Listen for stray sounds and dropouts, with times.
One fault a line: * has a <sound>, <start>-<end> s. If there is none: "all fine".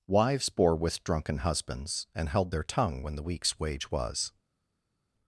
all fine